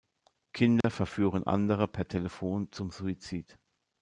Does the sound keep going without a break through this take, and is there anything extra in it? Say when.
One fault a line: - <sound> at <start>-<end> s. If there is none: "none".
- dropout at 0.8-0.8 s